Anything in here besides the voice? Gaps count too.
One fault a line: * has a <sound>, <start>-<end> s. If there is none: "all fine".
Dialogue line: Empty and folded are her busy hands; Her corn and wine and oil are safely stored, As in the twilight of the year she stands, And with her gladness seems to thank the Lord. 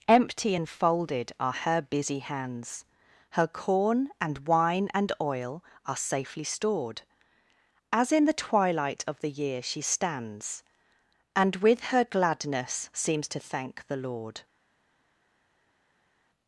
all fine